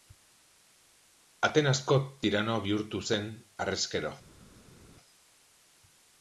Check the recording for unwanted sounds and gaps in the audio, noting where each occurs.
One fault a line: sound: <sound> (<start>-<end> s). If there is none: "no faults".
no faults